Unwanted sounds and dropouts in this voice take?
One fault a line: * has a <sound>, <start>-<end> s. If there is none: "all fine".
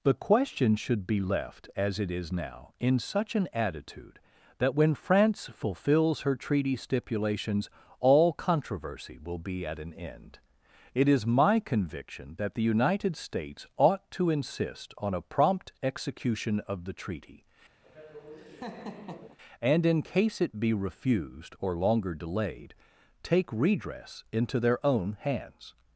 * has a laugh, 17.8-19.4 s